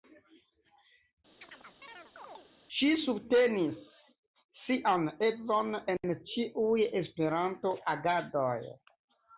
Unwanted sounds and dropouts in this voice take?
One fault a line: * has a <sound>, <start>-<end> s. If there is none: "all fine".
* has a chirp, 1.4-2.5 s